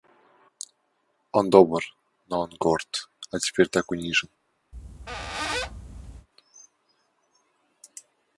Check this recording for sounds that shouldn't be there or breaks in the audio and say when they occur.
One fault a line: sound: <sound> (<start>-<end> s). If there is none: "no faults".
sound: squeak (4.7-6.3 s)